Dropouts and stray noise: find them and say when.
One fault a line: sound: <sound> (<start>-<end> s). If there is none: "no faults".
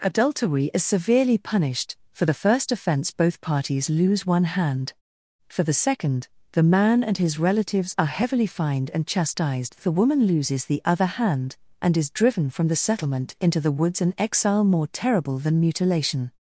no faults